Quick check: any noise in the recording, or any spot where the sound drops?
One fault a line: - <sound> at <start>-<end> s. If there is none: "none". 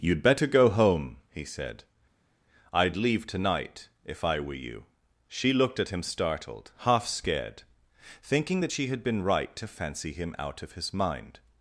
none